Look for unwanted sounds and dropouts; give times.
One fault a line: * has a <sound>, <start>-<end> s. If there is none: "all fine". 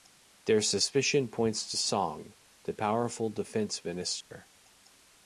* has a dropout, 4.2-4.3 s